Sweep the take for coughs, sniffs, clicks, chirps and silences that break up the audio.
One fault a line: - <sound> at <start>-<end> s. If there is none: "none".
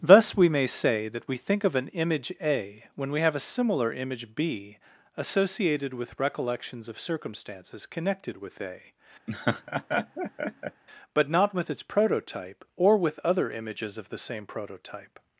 - laugh at 9.3-10.8 s